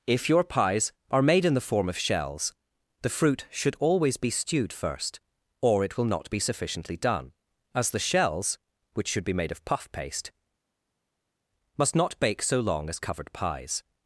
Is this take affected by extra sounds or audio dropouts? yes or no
no